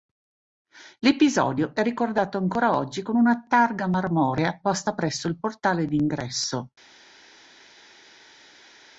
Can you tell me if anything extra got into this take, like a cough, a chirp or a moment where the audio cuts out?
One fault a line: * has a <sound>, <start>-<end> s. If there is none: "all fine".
all fine